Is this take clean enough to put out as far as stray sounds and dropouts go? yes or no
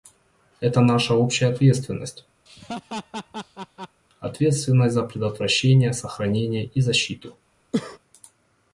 no